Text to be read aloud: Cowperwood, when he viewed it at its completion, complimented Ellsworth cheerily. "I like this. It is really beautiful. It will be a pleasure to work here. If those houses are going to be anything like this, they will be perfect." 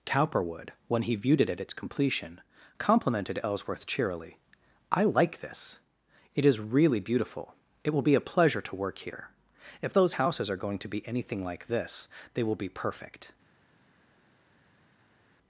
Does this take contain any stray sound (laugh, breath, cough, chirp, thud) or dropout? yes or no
no